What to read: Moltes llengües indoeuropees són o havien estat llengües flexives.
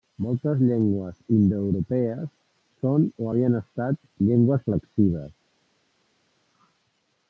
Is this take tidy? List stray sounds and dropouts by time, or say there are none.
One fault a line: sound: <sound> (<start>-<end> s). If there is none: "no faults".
no faults